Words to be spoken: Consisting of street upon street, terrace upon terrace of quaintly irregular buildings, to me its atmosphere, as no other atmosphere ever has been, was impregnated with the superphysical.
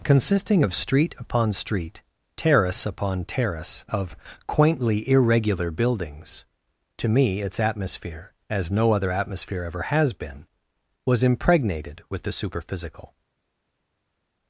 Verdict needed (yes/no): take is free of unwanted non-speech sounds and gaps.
yes